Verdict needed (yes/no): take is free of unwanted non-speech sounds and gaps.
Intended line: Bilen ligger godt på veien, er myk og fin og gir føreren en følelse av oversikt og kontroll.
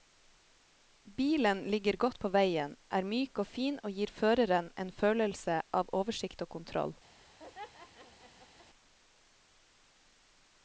no